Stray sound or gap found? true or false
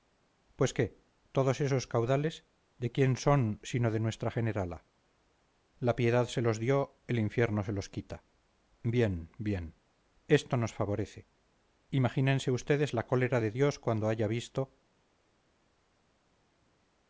false